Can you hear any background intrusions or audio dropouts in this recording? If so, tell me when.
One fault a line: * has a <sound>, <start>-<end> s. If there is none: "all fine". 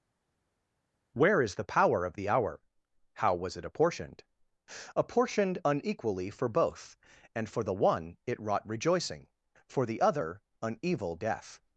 all fine